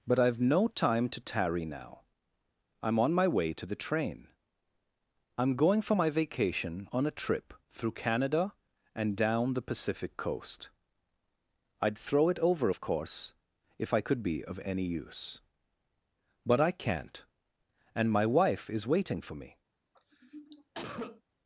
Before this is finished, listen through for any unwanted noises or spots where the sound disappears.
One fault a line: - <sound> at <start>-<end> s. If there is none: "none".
- cough at 19.9-21.2 s